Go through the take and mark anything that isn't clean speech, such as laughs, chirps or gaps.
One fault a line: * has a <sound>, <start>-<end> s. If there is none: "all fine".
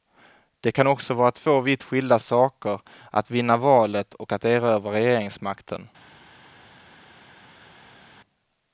all fine